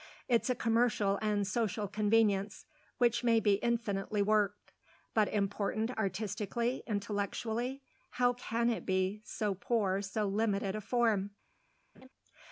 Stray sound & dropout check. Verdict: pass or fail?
fail